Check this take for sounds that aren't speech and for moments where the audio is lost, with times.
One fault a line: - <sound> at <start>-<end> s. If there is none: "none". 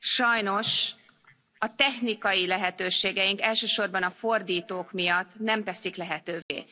- dropout at 6.4-6.5 s